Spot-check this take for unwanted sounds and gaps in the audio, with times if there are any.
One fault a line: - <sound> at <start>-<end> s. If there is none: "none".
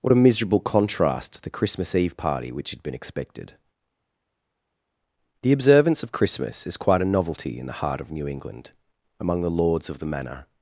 none